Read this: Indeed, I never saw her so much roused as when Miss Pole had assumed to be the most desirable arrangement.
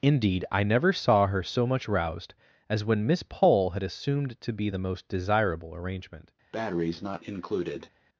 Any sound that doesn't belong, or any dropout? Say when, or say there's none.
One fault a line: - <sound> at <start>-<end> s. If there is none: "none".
- breath at 6.5-7.9 s